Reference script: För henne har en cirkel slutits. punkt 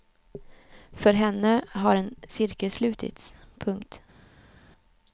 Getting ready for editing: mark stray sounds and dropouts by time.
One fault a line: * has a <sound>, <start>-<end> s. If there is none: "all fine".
all fine